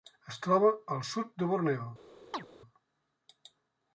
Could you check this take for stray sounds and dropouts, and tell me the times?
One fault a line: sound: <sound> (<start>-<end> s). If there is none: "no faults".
sound: chirp (2.3-2.5 s)